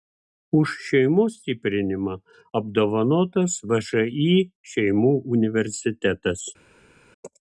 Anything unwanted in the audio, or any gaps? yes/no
no